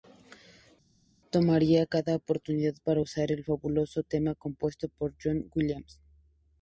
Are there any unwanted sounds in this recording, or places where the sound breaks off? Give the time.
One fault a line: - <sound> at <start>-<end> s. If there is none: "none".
none